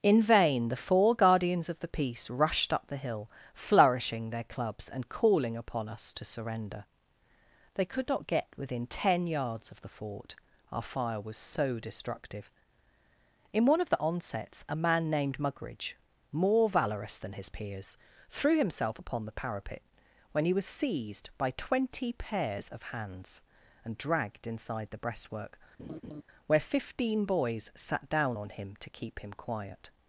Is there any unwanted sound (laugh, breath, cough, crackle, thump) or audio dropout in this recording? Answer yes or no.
yes